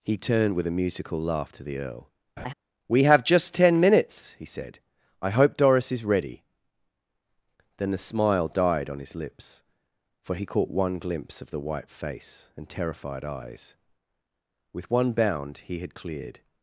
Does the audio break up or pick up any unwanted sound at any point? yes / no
yes